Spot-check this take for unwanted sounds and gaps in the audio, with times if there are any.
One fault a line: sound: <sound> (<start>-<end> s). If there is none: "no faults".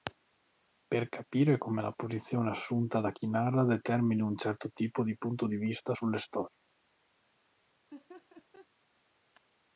sound: laugh (7.9-8.7 s)